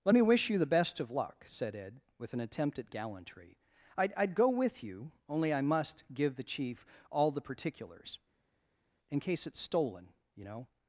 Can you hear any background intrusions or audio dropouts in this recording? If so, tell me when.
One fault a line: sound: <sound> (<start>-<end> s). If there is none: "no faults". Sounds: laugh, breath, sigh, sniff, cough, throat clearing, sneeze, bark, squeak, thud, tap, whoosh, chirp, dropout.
no faults